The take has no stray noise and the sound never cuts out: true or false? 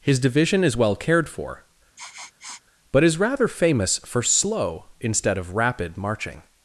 false